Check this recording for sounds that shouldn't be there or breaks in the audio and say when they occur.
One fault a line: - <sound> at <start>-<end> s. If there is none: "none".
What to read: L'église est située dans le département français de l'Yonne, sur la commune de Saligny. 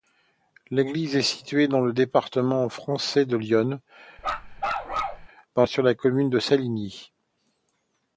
- bark at 4.2-5.3 s